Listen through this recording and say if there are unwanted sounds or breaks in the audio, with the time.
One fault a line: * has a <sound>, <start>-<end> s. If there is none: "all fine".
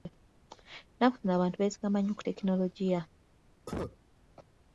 * has a cough, 3.7-4.0 s